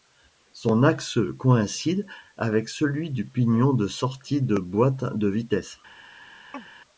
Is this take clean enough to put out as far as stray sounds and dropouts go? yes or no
no